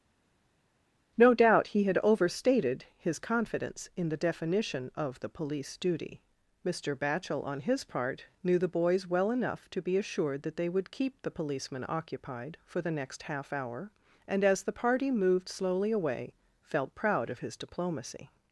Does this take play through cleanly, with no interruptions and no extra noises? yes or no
yes